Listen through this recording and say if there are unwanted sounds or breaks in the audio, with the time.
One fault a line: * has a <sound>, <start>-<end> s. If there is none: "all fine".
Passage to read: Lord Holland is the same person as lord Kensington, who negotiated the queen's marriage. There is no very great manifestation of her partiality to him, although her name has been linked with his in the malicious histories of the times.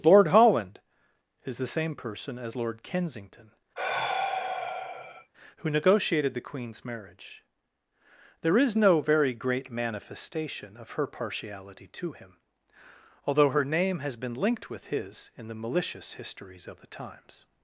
* has a sigh, 3.8-5.3 s